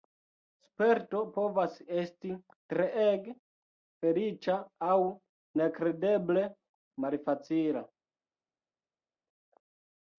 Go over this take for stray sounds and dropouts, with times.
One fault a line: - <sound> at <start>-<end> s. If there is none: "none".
none